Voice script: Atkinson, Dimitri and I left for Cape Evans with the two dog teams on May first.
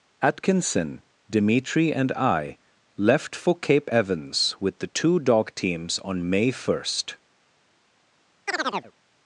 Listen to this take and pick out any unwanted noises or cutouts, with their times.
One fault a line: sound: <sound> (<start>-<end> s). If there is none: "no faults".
sound: chirp (8.5-8.9 s)